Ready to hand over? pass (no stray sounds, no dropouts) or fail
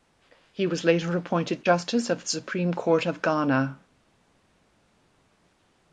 pass